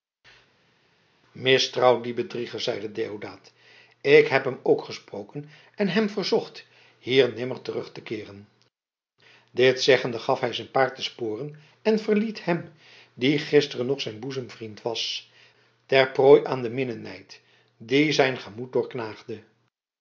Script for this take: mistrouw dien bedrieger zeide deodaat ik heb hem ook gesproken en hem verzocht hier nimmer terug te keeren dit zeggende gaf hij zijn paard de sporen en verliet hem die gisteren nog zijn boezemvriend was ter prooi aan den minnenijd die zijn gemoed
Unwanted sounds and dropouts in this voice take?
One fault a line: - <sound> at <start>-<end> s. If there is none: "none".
none